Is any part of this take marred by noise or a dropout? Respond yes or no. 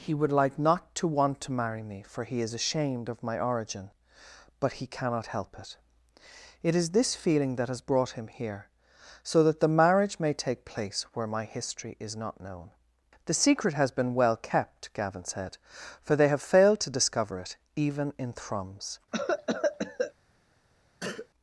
yes